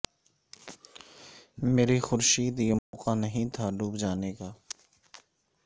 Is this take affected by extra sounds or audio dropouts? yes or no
yes